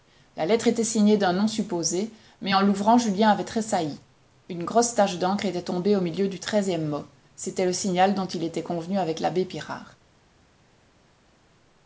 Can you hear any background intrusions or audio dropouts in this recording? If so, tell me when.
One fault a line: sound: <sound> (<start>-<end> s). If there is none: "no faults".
no faults